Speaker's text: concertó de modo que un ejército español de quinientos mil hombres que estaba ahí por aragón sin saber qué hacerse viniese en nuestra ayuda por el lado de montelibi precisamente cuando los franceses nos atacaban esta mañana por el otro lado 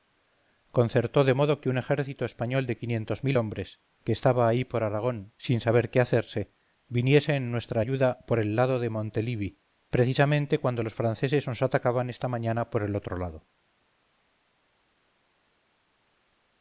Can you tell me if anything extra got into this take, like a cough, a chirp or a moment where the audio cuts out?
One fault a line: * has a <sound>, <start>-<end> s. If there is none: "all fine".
all fine